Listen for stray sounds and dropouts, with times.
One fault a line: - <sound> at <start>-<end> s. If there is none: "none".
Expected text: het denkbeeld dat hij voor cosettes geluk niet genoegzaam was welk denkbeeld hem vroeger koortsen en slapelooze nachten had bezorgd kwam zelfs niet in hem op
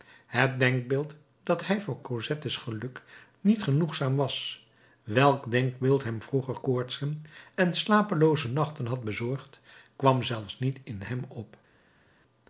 none